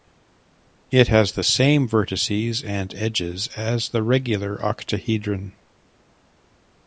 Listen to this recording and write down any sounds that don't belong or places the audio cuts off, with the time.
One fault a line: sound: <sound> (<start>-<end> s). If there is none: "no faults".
no faults